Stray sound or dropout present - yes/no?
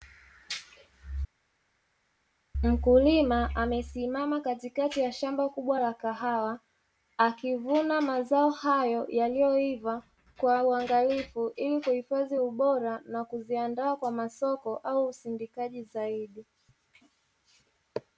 no